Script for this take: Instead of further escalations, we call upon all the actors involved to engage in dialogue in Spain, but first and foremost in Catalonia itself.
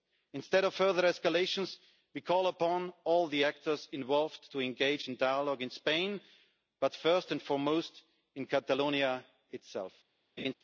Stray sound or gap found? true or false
true